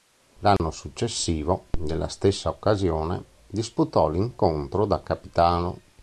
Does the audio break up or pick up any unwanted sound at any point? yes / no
yes